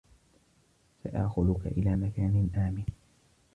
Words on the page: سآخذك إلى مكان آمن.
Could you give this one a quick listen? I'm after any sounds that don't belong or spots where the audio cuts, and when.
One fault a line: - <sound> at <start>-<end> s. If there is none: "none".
none